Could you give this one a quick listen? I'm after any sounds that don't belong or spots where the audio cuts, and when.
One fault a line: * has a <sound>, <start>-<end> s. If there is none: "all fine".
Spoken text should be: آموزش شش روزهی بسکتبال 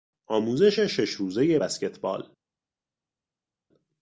all fine